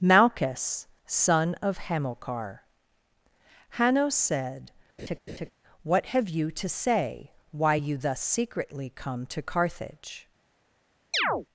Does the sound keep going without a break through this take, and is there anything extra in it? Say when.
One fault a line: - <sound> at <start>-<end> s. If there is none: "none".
- laugh at 5.0-5.5 s
- chirp at 11.1-11.5 s